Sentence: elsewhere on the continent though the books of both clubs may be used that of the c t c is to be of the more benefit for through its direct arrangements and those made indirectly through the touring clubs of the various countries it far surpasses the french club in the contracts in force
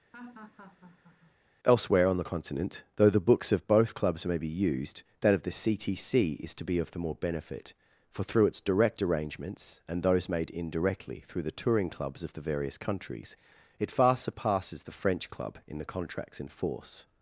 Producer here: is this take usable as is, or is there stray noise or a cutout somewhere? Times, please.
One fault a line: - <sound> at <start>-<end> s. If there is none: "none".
- laugh at 0.1-1.4 s